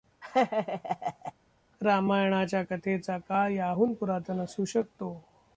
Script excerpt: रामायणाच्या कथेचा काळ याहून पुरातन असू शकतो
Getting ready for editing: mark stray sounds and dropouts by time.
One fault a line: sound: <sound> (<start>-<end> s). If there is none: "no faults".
sound: laugh (0.2-1.3 s)